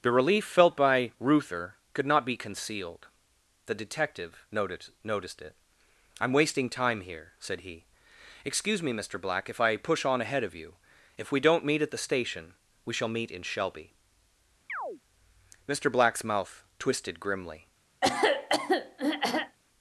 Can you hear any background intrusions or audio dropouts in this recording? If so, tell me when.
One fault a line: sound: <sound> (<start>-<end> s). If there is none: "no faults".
sound: chirp (14.7-15.0 s)
sound: throat clearing (18.0-19.6 s)